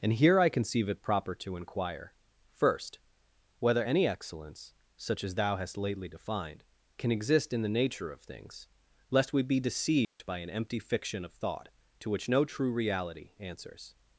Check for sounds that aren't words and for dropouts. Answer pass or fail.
fail